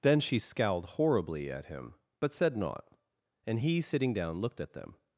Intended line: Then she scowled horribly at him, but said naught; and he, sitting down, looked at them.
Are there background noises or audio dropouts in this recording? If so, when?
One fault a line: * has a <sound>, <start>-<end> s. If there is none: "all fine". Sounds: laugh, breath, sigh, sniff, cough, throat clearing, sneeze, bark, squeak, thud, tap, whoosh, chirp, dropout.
all fine